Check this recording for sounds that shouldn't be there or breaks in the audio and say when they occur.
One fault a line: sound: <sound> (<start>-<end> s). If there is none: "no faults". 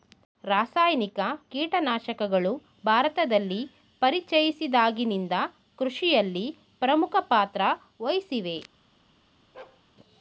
sound: bark (9.5-9.8 s)